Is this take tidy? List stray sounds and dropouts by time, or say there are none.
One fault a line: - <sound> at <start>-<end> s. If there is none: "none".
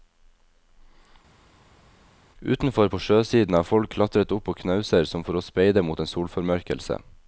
none